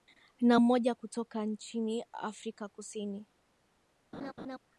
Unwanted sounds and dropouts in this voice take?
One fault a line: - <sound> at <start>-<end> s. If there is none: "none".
- laugh at 4.1-4.6 s